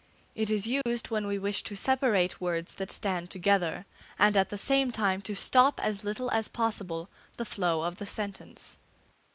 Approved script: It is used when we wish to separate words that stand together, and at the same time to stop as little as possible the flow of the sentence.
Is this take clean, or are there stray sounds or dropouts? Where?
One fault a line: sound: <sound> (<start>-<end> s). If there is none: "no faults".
sound: dropout (0.8-0.9 s)